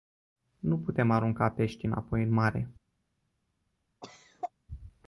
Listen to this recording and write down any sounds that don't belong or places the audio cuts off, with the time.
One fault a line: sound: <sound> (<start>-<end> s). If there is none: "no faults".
sound: cough (4.0-4.5 s)